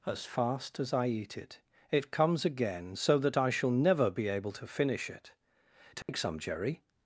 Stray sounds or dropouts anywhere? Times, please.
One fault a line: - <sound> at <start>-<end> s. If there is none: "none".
- dropout at 6.0-6.1 s